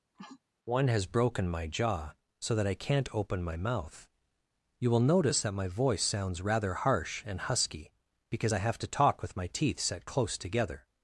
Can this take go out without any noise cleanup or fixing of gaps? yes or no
no